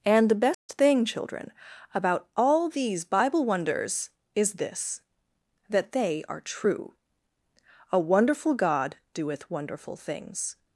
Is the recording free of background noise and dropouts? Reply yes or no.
no